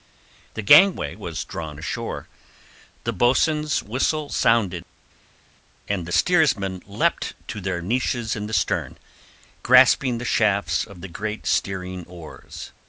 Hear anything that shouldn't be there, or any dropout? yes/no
no